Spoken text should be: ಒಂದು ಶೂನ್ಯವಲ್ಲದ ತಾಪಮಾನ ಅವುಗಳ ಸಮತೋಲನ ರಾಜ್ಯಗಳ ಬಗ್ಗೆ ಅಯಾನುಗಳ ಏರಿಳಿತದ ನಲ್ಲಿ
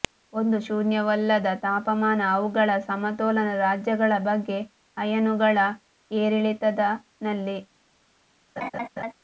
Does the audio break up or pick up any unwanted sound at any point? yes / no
yes